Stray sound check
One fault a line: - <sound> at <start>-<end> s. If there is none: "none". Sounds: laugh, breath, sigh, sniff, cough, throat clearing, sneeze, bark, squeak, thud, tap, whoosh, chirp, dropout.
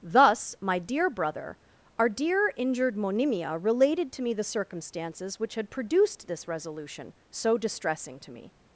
none